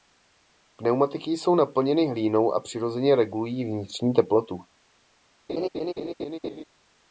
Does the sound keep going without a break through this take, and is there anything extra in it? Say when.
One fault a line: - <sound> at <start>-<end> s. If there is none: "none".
- laugh at 5.5-6.6 s